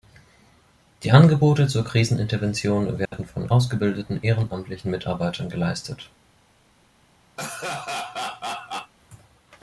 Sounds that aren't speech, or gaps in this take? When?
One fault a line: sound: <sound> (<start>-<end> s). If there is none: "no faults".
sound: dropout (3.1-3.1 s)
sound: laugh (7.4-8.9 s)